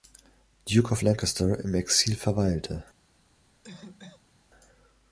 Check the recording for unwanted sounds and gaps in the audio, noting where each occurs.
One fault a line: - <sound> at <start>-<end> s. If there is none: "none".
- cough at 3.6-4.4 s